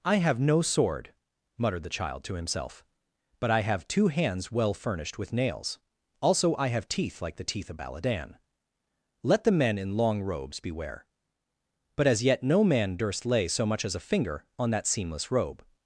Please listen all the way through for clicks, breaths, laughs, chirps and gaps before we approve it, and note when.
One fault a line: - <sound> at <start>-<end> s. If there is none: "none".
none